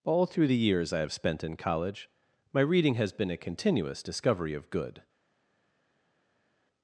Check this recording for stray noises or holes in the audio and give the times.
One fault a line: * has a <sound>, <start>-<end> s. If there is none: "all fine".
all fine